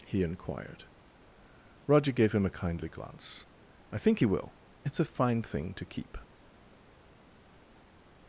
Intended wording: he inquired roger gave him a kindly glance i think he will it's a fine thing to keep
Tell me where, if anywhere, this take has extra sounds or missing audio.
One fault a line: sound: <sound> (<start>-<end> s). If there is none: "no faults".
no faults